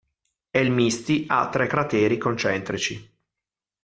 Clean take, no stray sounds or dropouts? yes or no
yes